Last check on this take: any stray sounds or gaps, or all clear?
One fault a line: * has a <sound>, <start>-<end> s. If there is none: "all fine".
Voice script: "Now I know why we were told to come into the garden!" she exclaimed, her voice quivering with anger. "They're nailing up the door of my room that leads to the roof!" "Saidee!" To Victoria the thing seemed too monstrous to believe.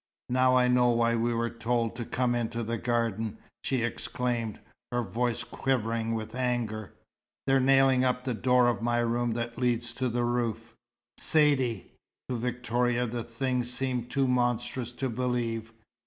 all fine